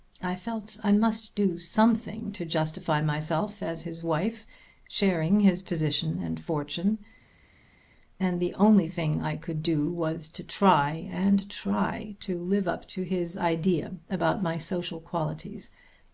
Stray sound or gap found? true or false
false